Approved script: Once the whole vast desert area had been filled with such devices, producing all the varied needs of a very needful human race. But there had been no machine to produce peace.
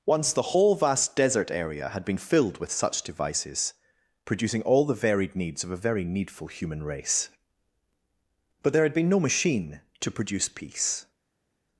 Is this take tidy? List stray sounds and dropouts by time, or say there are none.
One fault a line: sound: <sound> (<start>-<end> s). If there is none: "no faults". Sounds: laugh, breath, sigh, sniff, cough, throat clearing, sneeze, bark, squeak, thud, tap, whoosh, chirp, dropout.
no faults